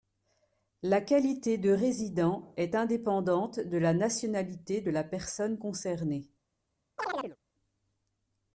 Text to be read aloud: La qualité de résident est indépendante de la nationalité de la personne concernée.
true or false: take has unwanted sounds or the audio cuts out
true